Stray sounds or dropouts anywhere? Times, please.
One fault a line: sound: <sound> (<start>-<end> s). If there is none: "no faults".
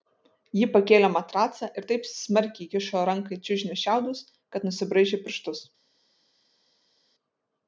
no faults